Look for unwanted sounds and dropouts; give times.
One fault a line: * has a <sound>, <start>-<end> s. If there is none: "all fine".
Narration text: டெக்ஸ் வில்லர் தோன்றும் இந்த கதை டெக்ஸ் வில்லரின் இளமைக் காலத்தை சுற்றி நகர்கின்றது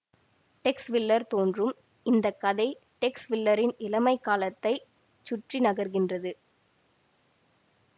all fine